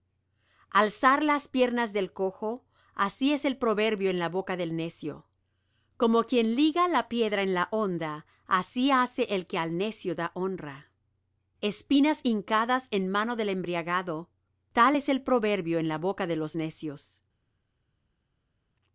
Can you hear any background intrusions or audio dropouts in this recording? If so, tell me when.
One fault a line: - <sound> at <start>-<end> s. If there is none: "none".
none